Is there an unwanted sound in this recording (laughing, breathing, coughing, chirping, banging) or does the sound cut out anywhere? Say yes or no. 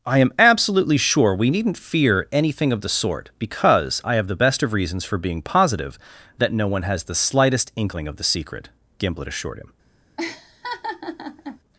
yes